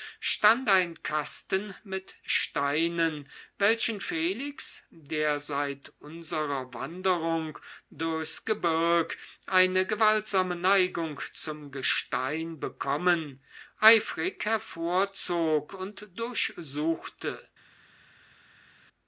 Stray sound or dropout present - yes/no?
no